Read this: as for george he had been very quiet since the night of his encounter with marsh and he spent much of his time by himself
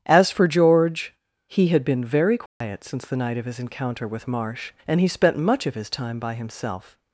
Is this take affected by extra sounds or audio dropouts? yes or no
yes